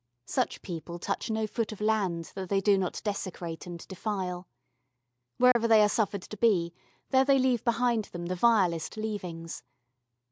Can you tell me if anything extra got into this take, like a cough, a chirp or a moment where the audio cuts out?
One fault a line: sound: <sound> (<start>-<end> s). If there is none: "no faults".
sound: dropout (5.5-5.6 s)